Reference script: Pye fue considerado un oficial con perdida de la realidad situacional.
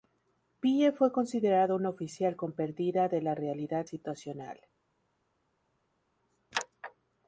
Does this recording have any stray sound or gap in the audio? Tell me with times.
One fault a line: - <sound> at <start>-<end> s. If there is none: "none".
none